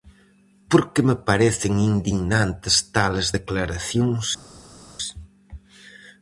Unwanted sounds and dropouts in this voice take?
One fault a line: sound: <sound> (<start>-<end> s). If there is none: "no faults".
no faults